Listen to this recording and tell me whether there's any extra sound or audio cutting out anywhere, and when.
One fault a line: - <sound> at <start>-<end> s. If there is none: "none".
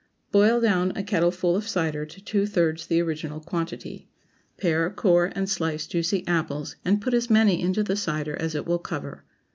none